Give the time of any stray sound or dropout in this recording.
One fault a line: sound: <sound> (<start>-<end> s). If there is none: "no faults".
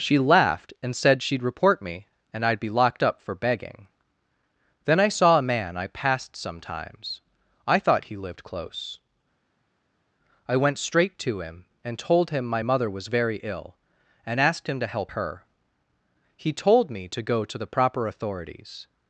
no faults